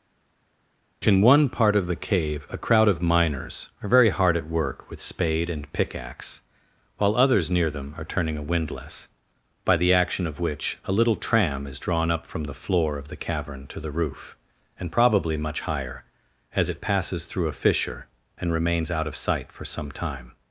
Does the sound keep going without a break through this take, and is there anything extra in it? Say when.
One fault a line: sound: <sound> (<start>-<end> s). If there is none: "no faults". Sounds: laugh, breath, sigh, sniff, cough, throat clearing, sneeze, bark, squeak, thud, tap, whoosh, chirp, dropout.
no faults